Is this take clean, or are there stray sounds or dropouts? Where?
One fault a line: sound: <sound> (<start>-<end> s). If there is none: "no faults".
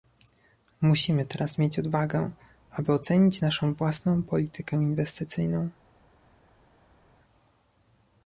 no faults